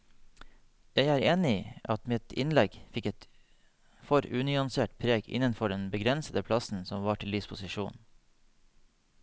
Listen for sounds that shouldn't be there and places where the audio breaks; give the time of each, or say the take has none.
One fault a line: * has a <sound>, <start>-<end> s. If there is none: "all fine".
all fine